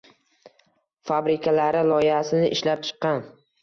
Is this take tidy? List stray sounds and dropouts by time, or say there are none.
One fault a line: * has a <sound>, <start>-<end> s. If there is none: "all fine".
all fine